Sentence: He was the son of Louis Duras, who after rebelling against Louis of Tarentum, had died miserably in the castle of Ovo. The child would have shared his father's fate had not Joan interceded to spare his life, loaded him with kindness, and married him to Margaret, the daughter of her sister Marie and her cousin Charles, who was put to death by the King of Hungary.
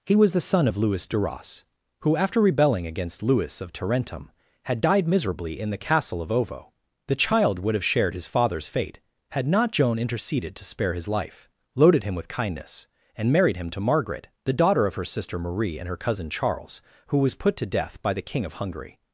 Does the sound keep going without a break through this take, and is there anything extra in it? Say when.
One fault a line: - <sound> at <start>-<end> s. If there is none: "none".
none